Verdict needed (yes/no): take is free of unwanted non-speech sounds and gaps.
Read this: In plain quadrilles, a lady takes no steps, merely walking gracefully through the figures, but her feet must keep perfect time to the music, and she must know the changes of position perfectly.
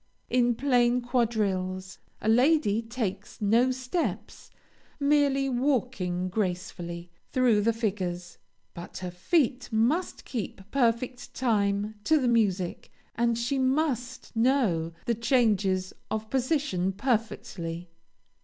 yes